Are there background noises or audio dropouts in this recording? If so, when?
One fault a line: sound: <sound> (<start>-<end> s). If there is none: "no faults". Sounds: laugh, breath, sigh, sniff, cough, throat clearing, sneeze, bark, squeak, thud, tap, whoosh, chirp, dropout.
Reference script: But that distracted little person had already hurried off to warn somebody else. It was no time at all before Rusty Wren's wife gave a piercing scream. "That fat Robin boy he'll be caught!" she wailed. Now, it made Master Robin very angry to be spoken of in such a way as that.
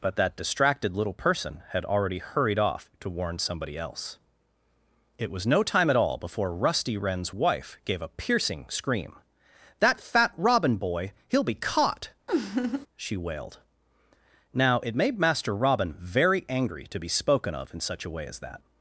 sound: laugh (12.3-12.9 s)